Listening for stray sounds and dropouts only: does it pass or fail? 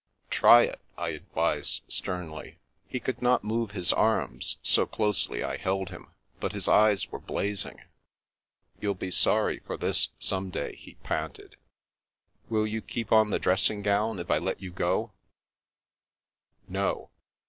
pass